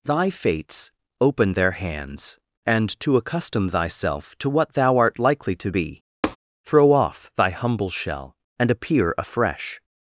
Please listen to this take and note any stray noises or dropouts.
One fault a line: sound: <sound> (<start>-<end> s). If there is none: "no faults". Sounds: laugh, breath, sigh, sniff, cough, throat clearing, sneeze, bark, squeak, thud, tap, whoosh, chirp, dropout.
sound: tap (6.2-6.4 s)